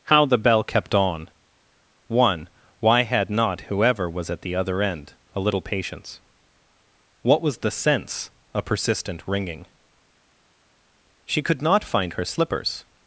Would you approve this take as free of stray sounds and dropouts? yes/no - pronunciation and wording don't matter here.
yes